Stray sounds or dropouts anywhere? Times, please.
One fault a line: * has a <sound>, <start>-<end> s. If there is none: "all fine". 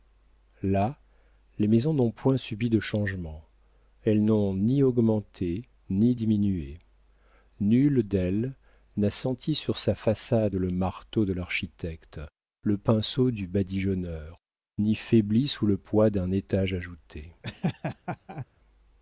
* has a laugh, 17.4-18.5 s